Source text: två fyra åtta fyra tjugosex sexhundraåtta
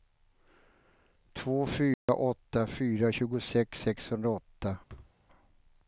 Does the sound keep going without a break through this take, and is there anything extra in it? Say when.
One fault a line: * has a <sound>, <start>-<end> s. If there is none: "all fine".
* has a dropout, 1.9-2.1 s
* has a thud, 4.9-5.2 s